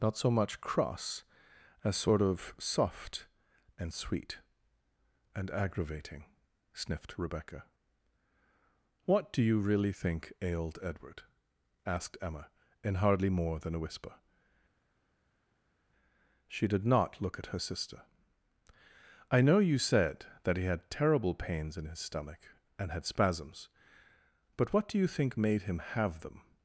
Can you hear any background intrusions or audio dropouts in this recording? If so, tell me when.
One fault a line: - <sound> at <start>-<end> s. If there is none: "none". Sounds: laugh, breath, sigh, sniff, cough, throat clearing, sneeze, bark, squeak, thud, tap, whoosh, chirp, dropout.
none